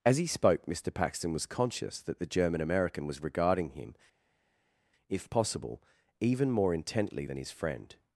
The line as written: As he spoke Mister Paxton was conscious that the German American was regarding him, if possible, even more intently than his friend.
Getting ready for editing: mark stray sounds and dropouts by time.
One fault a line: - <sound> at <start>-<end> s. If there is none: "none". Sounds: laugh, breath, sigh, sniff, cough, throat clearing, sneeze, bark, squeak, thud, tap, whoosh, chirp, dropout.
none